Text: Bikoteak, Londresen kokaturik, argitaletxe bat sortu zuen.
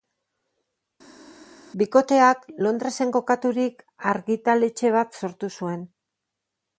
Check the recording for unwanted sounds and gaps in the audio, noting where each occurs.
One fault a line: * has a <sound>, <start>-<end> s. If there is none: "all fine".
all fine